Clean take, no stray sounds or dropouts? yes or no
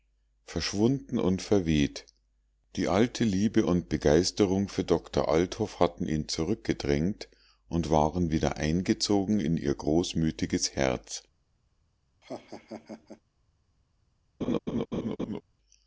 no